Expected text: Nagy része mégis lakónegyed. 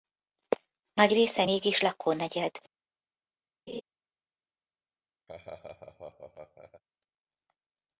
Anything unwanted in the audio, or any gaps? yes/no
yes